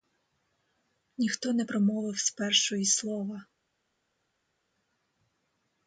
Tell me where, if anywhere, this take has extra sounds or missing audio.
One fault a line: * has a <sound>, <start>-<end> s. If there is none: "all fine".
all fine